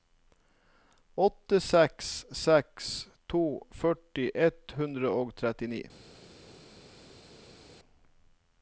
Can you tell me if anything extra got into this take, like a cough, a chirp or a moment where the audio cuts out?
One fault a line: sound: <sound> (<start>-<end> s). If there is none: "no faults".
no faults